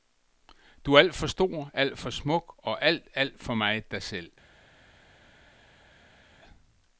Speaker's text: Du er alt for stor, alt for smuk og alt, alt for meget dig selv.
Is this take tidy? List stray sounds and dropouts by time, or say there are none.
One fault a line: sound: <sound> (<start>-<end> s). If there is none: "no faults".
no faults